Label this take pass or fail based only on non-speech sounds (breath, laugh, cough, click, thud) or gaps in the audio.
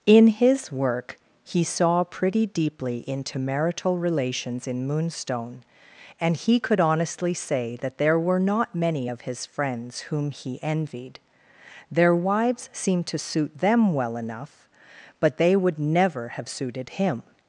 pass